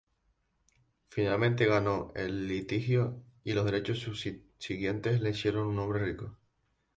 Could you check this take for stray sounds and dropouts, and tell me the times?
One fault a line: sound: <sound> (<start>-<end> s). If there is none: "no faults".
no faults